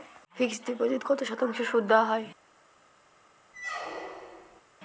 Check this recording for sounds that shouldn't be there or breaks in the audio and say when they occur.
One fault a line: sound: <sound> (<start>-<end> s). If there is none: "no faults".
sound: squeak (3.5-4.6 s)